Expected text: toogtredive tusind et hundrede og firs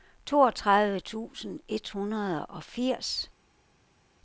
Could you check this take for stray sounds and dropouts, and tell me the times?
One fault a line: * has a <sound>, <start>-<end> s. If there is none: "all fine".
all fine